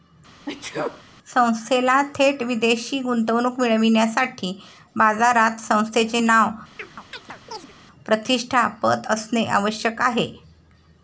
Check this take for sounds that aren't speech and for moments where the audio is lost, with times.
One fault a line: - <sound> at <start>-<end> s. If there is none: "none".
- sneeze at 0.5-1.0 s
- chirp at 6.8-7.7 s